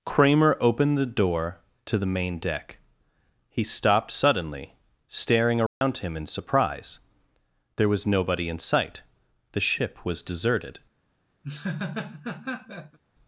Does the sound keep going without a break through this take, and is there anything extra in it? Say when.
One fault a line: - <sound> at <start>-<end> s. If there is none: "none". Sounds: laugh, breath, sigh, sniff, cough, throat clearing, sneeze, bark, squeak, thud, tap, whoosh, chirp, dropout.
- dropout at 5.7-5.8 s
- laugh at 11.4-13.0 s